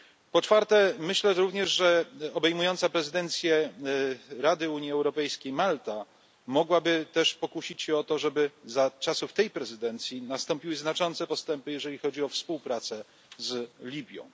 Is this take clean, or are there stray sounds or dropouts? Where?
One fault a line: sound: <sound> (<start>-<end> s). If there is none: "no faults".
no faults